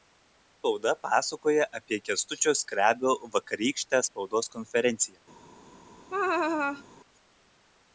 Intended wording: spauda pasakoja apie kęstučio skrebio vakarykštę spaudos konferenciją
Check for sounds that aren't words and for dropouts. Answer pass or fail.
fail